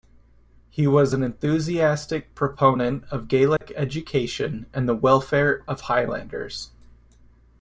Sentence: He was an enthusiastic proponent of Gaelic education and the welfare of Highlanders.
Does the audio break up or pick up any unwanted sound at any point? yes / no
yes